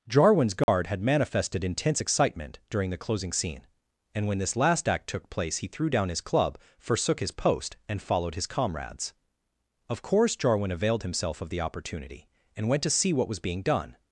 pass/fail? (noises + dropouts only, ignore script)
fail